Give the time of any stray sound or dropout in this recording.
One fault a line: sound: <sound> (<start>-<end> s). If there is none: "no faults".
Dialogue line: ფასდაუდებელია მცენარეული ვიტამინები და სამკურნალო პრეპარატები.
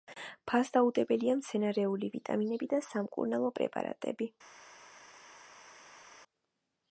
no faults